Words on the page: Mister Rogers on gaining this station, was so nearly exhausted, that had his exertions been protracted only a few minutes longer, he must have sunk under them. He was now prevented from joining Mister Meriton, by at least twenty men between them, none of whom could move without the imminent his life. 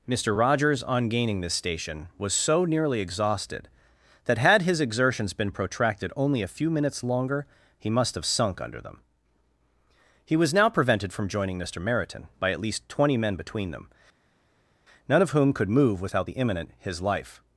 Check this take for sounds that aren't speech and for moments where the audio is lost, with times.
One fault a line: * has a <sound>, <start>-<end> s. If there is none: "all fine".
all fine